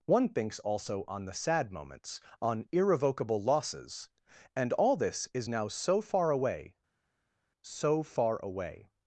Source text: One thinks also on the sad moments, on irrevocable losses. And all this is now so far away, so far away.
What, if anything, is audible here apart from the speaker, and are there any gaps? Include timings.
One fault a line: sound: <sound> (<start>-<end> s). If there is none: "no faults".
no faults